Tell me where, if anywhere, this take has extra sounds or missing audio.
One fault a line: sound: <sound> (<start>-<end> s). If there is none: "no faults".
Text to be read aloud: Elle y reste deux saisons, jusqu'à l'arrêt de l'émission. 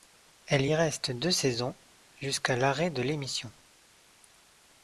no faults